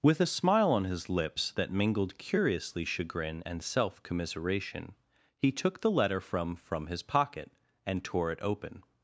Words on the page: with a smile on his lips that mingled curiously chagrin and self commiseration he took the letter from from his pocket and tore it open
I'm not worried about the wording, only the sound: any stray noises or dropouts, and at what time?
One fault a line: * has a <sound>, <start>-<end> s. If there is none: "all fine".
all fine